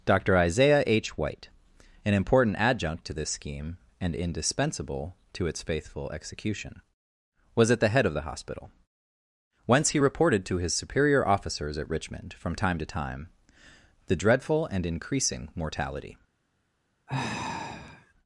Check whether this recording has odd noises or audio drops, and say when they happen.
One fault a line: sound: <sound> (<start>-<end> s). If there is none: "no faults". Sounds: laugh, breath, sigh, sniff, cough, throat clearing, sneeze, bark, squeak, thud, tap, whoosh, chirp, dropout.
sound: sigh (17.1-18.1 s)